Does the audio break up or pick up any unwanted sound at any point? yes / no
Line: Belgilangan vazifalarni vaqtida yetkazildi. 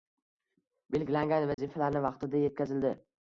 yes